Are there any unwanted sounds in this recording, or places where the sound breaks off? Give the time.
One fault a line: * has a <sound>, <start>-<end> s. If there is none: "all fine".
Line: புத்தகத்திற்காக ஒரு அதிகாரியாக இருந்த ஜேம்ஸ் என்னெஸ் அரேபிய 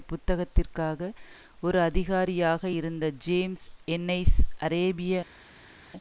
all fine